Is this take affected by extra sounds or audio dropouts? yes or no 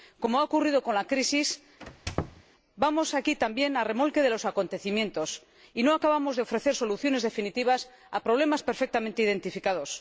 yes